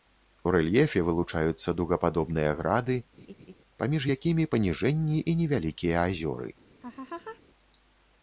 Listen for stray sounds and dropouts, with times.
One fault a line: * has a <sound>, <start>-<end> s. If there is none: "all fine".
* has a laugh, 3.2-3.5 s
* has a laugh, 6.8-7.4 s